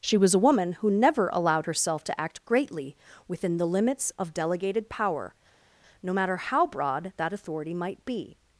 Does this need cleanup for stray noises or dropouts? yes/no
no